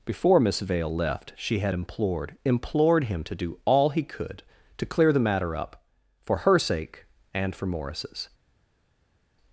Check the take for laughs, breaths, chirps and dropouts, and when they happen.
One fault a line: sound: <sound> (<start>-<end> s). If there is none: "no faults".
no faults